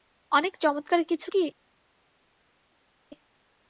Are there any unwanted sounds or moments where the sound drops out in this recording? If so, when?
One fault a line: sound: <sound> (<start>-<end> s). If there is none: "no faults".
no faults